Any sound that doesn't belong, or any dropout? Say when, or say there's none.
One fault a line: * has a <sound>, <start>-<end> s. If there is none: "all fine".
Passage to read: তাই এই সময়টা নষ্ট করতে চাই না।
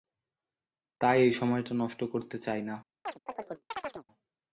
* has a chirp, 3.0-4.1 s